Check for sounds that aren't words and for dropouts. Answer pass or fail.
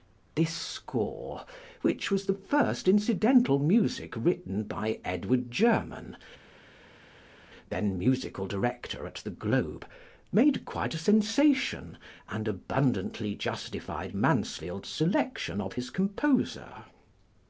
pass